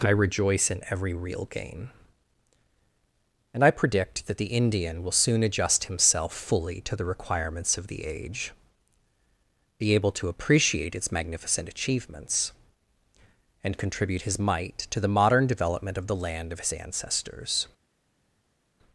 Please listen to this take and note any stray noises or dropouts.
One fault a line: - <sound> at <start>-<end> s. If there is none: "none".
none